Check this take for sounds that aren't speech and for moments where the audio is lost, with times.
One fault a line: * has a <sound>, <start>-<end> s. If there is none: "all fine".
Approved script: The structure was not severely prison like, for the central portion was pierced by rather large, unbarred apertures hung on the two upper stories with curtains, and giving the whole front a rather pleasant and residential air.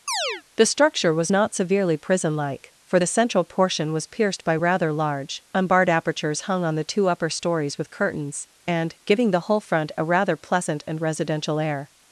* has a chirp, 0.1-0.4 s